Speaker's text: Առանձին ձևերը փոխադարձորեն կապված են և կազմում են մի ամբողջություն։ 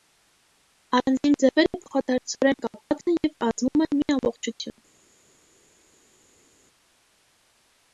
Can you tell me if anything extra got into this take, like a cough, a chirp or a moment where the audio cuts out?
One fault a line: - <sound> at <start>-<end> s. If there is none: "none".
none